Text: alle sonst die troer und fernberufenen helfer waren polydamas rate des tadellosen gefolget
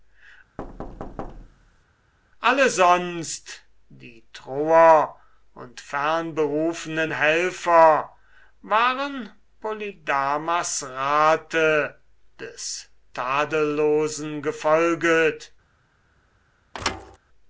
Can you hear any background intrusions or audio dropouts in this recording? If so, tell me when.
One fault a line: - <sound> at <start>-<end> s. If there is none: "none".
- thud at 0.6-1.8 s
- thud at 16.7-17.2 s